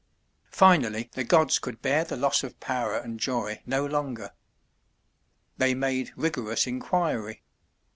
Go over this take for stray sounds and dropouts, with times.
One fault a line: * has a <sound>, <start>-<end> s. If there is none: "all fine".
all fine